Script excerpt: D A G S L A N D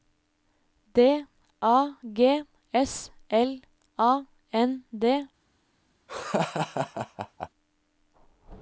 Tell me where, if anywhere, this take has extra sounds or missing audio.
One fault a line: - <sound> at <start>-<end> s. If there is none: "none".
- laugh at 6.1-7.5 s